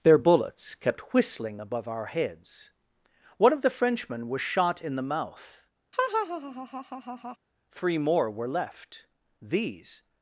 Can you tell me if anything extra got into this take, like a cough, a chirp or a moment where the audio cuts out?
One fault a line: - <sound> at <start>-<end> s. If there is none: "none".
- laugh at 5.9-7.4 s